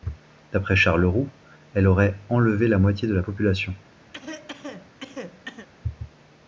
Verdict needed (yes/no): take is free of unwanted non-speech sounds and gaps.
no